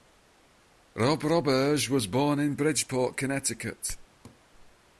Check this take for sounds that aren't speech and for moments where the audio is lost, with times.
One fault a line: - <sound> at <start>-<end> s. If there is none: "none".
- laugh at 4.2-4.4 s